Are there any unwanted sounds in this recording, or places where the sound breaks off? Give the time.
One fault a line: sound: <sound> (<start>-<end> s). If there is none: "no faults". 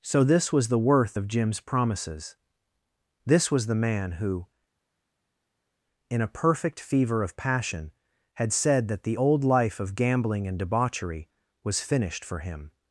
no faults